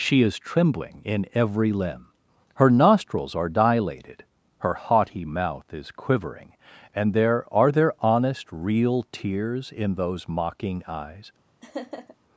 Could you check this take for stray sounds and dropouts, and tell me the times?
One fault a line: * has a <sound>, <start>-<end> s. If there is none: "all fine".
* has a laugh, 11.6-12.2 s